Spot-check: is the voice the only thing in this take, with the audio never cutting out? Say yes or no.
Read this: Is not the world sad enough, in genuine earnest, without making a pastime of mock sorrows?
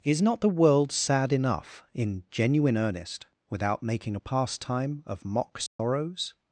no